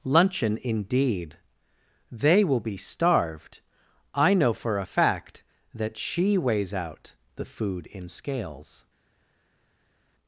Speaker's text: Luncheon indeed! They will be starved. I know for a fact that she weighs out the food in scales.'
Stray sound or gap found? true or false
false